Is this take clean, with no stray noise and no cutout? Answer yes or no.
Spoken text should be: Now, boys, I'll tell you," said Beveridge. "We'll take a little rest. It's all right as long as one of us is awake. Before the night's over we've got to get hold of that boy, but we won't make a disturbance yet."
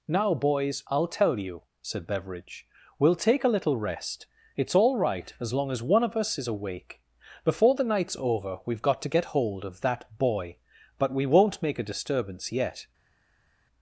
yes